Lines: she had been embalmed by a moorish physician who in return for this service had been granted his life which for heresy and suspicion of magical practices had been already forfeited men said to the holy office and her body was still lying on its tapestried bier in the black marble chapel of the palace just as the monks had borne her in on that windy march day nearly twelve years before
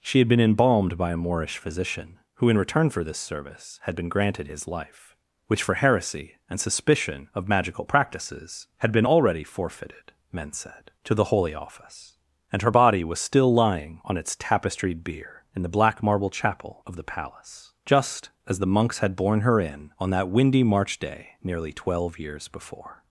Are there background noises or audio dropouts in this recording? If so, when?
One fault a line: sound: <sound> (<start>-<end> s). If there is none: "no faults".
no faults